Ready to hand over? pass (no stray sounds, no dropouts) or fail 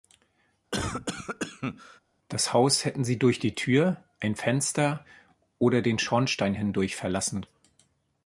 fail